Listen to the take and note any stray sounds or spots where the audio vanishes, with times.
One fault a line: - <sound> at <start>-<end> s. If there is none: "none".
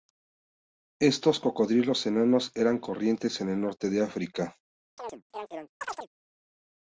- chirp at 5.0-6.1 s